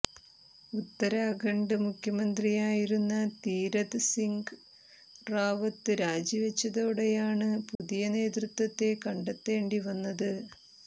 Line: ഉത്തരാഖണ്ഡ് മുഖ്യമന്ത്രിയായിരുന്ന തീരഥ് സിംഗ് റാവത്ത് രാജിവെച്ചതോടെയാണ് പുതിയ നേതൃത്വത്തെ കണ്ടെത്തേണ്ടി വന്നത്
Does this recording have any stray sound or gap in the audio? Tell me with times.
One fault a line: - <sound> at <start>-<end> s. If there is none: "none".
- dropout at 7.7-7.8 s